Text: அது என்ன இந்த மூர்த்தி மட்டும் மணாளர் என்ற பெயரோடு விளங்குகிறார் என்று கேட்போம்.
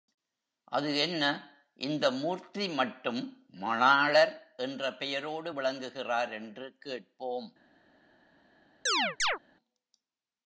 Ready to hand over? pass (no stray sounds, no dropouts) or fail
fail